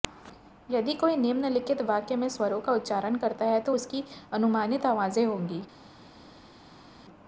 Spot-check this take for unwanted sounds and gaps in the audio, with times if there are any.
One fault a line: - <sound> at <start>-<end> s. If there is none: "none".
none